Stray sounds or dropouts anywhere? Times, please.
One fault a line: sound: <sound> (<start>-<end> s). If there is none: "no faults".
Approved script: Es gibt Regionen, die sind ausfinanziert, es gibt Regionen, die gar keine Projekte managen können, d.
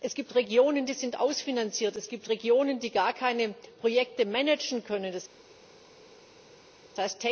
no faults